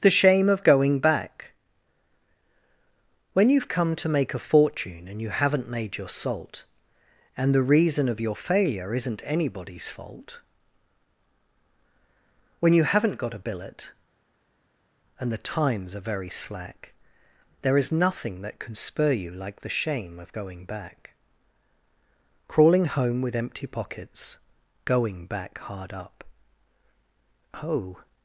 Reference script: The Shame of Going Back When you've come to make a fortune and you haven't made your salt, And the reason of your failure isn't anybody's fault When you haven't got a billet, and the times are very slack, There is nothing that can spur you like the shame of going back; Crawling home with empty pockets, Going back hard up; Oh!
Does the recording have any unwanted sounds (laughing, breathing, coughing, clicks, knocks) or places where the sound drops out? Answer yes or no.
no